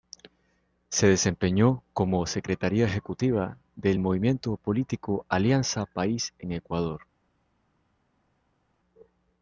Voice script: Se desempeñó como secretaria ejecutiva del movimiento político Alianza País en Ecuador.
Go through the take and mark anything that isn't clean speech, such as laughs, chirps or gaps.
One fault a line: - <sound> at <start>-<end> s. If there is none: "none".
none